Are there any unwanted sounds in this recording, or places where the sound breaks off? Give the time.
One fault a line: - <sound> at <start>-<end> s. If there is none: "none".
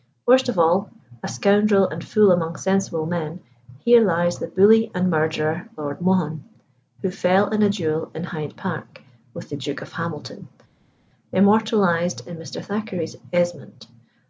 none